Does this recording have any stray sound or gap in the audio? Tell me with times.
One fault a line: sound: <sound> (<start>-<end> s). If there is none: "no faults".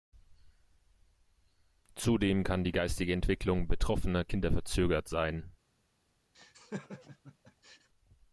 sound: laugh (6.3-7.9 s)